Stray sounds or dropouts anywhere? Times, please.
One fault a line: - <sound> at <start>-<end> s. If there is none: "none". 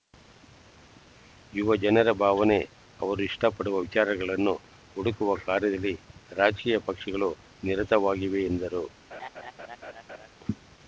- laugh at 9.1-10.3 s